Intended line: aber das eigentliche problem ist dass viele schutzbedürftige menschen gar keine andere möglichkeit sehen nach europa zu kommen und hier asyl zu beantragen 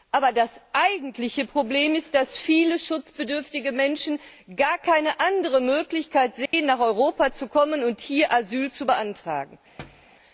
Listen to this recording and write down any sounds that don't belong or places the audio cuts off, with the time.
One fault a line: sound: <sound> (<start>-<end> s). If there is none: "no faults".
sound: dropout (6.5-6.5 s)
sound: thud (9.8-10.1 s)